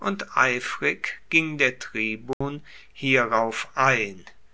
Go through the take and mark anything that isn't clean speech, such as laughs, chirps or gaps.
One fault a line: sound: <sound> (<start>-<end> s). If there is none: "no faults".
sound: dropout (2.3-2.4 s)